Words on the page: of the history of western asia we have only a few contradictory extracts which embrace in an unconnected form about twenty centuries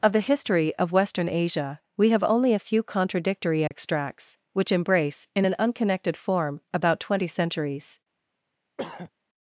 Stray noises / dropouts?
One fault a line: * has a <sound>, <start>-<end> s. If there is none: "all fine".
* has a dropout, 3.7-3.7 s
* has a throat clearing, 8.8-9.1 s